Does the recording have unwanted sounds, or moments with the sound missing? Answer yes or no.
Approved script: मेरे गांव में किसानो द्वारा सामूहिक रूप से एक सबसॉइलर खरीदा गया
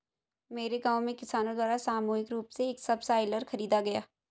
no